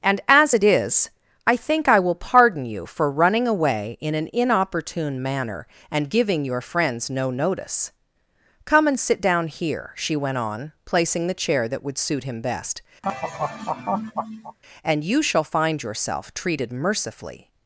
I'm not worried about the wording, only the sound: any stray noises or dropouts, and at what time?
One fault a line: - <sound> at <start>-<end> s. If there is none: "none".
- laugh at 13.0-14.6 s